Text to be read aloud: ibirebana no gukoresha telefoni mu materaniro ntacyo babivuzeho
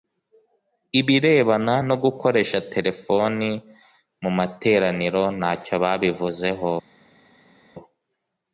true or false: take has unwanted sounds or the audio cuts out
false